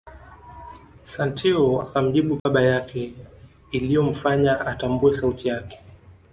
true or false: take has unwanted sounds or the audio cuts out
true